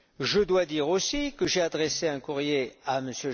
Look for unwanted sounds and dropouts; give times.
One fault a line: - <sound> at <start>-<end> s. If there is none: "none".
none